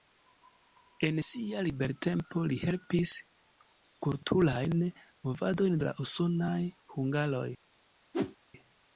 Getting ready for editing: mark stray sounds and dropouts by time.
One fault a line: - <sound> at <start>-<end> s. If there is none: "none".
- whoosh at 8.1-8.4 s